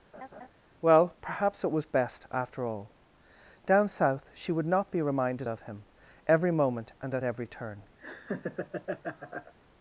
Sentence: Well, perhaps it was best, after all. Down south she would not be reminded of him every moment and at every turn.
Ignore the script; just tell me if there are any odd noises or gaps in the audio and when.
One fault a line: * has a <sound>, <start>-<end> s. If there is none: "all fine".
* has a laugh, 0.1-0.5 s
* has a laugh, 8.0-9.5 s